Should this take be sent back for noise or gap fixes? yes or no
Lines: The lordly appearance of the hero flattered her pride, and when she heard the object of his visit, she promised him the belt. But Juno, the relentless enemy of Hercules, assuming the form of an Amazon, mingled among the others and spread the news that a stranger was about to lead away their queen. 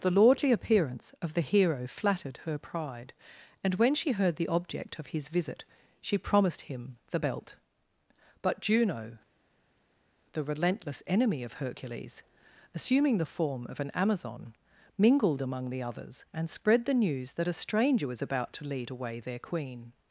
no